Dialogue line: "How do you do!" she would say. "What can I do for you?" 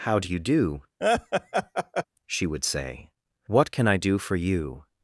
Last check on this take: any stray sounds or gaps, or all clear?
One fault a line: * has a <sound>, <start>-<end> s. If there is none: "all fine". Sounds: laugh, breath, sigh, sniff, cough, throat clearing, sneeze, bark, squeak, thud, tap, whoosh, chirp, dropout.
* has a laugh, 1.0-2.0 s